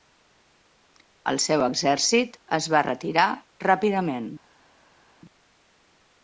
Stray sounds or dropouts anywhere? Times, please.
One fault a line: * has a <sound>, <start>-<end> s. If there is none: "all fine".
all fine